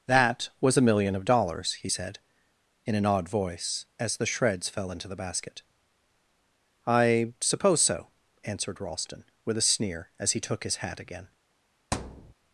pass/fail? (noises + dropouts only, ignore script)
fail